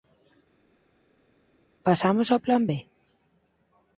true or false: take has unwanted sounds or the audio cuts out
false